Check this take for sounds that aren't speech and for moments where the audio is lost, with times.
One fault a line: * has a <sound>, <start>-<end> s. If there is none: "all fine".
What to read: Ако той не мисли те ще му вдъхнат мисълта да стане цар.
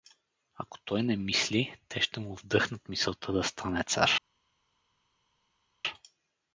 all fine